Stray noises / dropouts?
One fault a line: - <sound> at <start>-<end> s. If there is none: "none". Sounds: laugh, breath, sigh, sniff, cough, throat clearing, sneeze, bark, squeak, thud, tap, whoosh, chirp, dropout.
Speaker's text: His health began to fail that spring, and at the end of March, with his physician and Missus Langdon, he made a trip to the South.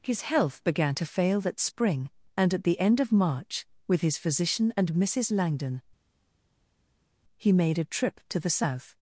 none